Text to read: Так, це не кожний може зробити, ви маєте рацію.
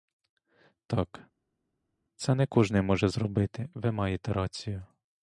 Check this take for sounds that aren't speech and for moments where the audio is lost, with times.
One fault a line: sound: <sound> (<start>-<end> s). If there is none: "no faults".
no faults